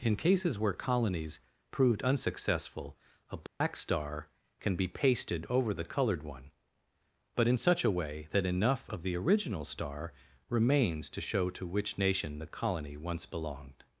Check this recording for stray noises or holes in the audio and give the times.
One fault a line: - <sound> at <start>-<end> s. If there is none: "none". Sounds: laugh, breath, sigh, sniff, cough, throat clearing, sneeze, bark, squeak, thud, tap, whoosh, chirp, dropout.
- dropout at 3.5-3.6 s